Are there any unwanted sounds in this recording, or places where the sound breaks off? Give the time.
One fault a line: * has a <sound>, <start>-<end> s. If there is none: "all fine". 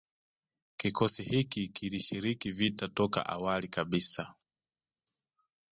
all fine